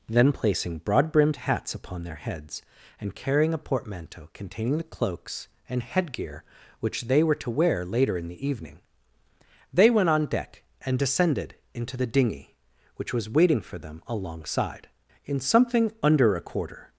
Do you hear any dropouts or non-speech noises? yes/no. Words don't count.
no